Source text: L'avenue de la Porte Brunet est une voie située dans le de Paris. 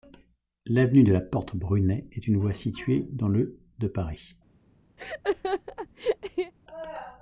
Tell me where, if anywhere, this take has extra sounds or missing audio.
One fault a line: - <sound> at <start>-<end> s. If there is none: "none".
- laugh at 5.0-6.5 s